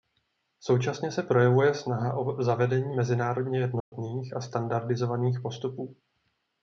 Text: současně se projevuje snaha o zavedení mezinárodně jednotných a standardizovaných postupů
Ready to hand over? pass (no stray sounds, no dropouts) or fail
fail